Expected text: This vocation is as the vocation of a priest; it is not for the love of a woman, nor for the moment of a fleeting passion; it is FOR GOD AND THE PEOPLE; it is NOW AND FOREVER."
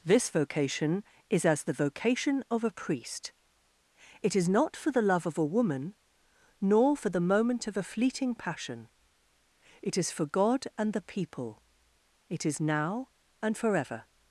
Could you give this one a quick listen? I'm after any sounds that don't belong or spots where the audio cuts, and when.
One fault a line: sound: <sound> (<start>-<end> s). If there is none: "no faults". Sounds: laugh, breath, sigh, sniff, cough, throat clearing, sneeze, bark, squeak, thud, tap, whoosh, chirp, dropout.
no faults